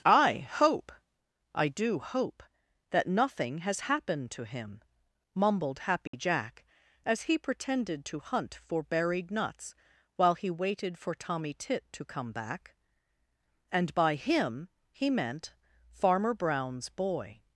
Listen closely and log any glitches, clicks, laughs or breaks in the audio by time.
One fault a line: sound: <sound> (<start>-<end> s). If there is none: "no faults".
sound: dropout (6.1-6.1 s)